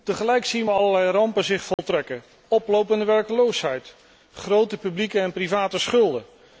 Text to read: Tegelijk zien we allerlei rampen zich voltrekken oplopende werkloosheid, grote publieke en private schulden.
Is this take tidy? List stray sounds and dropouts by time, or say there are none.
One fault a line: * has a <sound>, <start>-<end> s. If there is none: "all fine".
* has a dropout, 1.7-1.8 s